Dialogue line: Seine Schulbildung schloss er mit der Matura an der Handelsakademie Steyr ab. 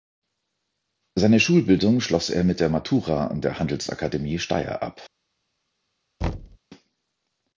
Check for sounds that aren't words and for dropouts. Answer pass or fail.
fail